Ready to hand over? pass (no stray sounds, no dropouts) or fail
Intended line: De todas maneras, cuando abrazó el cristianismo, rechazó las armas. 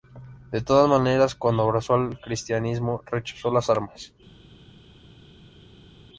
pass